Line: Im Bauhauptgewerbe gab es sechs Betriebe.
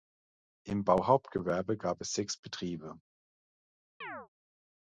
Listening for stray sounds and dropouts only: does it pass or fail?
fail